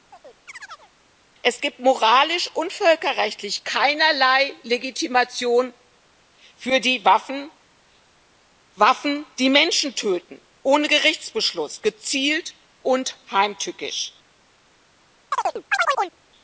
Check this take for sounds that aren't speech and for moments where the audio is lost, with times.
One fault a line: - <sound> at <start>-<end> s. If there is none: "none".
- chirp at 0.1-0.9 s
- chirp at 15.3-16.2 s